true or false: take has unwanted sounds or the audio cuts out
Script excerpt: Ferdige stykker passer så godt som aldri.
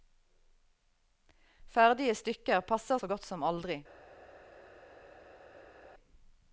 false